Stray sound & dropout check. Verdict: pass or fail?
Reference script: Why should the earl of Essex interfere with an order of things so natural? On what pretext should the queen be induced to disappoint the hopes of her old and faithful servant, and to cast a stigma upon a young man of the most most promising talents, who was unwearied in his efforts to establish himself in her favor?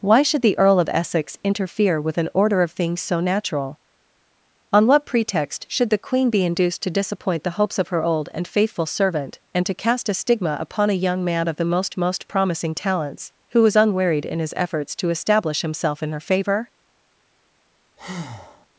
fail